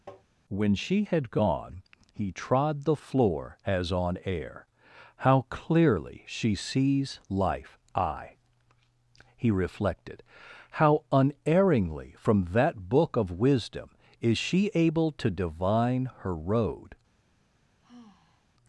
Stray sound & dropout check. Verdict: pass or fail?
fail